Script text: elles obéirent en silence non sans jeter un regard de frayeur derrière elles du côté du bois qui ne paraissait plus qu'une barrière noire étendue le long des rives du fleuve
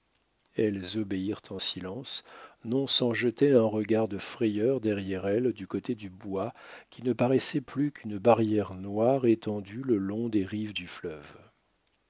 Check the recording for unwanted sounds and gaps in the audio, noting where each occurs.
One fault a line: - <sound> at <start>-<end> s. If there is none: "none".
none